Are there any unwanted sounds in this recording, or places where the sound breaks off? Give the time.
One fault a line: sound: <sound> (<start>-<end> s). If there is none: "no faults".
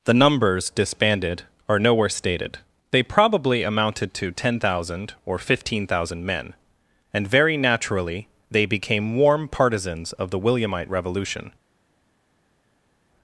no faults